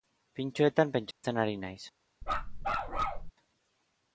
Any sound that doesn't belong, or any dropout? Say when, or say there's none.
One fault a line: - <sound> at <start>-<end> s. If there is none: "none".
- dropout at 1.1-1.2 s
- bark at 2.2-3.3 s